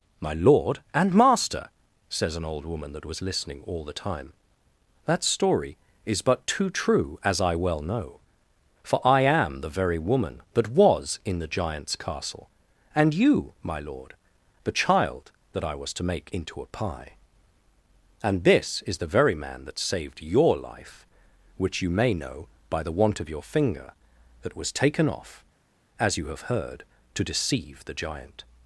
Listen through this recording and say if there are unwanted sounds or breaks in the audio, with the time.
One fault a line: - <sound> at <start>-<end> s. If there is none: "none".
none